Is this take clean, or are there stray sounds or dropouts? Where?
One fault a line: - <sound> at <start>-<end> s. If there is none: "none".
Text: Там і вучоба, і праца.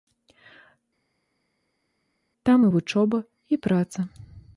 none